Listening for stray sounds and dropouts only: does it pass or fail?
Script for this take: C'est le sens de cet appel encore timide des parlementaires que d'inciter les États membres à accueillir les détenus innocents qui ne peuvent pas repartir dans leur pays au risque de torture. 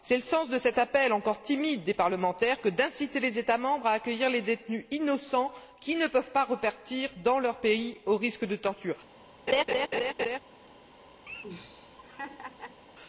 fail